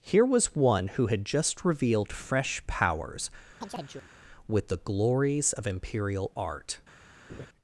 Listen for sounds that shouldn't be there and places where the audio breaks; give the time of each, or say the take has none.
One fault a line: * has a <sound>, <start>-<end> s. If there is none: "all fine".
* has a chirp, 3.6-4.1 s
* has a laugh, 7.3-7.5 s